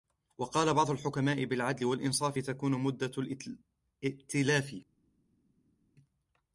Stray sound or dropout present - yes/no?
no